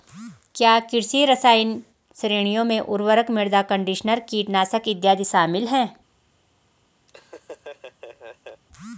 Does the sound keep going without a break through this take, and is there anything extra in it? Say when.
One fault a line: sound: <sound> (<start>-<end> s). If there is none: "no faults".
sound: laugh (7.1-8.6 s)